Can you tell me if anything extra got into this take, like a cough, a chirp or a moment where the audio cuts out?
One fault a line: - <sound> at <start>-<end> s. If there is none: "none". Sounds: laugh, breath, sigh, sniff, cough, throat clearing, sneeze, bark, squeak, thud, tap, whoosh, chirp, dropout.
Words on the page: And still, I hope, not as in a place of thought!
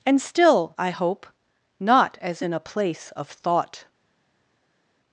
none